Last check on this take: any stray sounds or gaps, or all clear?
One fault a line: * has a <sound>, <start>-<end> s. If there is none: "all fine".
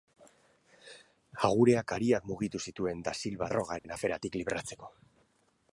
* has a dropout, 3.8-3.8 s